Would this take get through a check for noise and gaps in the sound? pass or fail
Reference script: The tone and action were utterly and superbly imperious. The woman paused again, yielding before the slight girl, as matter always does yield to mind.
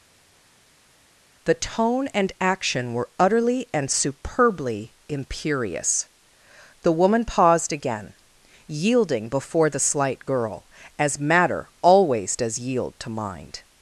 pass